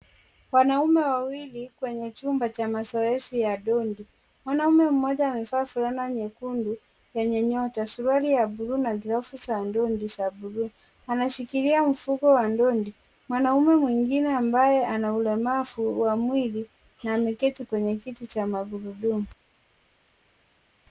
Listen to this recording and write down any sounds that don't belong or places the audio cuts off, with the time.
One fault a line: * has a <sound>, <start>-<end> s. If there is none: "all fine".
all fine